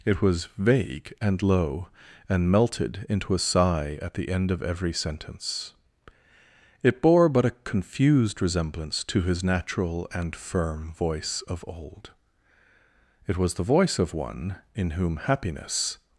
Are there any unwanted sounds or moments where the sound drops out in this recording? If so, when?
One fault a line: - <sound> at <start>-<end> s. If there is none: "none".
none